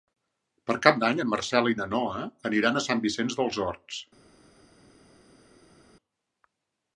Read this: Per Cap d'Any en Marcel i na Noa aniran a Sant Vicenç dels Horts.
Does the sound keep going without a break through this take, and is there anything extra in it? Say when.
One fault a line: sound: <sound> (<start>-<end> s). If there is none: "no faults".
no faults